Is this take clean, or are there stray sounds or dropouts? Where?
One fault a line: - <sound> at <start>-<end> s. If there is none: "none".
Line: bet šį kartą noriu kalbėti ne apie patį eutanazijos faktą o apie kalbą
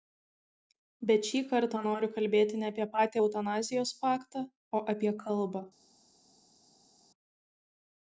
none